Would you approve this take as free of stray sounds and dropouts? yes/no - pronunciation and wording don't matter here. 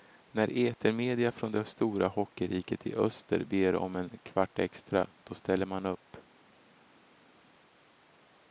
yes